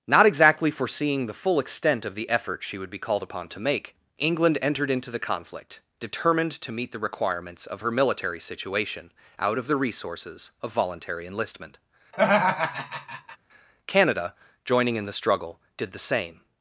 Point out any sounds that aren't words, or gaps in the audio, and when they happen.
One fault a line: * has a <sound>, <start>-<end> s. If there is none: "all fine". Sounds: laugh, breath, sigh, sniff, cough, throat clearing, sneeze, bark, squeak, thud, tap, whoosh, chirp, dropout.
* has a laugh, 12.1-13.4 s